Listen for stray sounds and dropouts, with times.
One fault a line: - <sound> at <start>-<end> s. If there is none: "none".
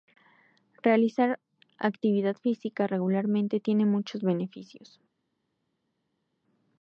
none